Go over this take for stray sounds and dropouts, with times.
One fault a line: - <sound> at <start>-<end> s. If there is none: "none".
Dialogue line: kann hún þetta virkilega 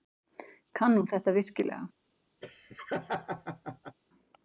- laugh at 2.4-4.0 s